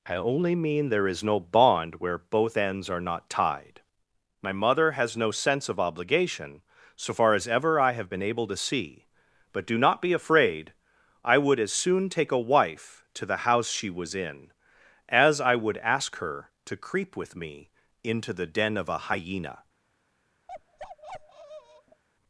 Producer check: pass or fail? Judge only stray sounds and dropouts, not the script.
fail